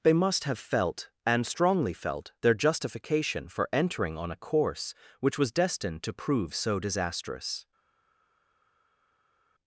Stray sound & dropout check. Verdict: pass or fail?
pass